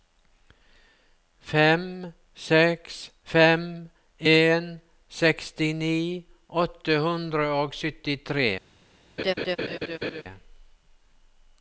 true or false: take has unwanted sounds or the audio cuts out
true